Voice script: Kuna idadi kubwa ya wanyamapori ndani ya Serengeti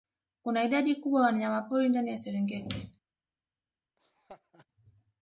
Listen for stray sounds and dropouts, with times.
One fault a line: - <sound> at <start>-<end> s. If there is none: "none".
- laugh at 4.0-4.7 s